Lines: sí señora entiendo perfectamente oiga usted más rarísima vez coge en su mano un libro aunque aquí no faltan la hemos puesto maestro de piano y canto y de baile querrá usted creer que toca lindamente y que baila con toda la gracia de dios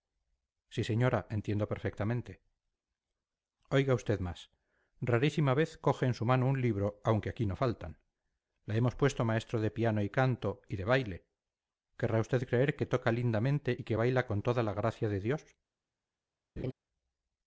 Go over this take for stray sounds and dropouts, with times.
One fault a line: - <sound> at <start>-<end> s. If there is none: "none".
- laugh at 16.6-16.7 s